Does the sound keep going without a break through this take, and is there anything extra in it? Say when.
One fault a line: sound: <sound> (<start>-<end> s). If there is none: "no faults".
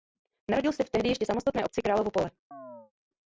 sound: chirp (2.5-2.9 s)